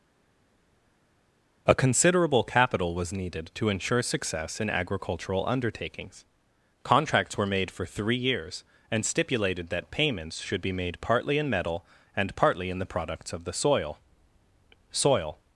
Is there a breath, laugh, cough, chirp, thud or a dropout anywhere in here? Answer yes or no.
no